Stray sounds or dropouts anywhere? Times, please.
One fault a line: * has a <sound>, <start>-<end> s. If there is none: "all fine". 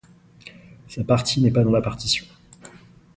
all fine